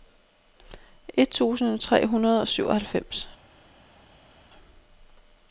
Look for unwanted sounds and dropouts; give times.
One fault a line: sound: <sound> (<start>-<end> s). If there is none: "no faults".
no faults